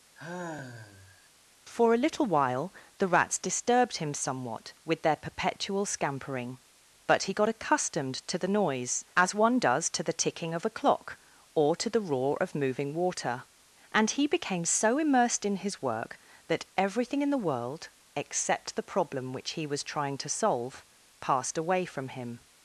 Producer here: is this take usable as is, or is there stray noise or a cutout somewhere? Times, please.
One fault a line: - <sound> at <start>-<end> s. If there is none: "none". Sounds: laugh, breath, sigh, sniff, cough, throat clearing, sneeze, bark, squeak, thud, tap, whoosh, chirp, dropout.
- sigh at 0.1-1.3 s